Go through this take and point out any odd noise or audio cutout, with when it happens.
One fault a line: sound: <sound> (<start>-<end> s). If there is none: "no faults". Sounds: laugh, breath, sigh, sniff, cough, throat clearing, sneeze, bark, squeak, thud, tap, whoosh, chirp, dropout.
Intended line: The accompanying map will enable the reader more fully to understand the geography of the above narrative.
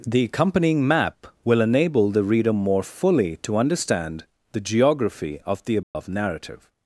sound: dropout (5.8-6.0 s)